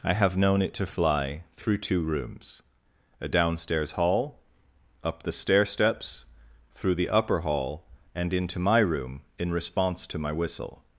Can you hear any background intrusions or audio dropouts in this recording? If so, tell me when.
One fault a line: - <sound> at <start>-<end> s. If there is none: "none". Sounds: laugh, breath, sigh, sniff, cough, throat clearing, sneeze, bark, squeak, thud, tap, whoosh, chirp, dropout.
none